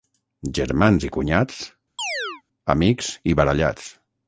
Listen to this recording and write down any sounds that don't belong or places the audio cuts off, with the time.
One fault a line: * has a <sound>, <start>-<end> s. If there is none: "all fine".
* has a chirp, 2.0-2.4 s